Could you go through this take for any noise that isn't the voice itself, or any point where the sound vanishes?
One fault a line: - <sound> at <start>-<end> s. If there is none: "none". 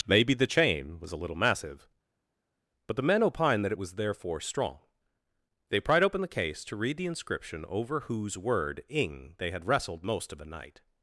none